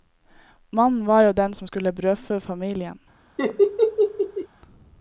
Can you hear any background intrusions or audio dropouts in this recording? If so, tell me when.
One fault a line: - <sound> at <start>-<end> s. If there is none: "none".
- laugh at 3.4-4.5 s